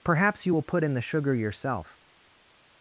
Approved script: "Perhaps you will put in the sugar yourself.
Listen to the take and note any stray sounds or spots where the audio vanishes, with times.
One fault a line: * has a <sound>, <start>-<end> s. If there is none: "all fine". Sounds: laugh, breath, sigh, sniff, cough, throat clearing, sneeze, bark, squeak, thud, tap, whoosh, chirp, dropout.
all fine